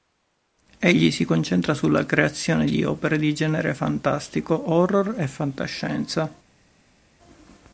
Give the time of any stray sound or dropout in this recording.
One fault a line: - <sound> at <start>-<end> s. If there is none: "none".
none